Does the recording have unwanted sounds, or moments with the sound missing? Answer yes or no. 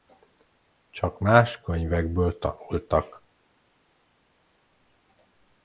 no